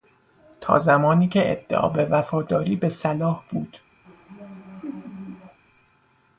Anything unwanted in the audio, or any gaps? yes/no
yes